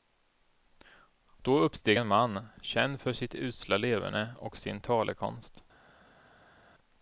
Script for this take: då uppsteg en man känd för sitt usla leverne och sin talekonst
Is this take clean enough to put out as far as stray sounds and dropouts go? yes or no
yes